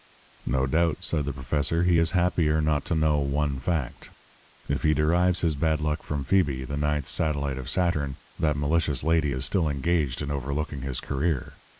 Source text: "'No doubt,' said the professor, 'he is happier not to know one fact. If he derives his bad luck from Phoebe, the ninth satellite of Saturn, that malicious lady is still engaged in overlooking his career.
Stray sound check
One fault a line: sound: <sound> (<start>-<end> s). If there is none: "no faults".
no faults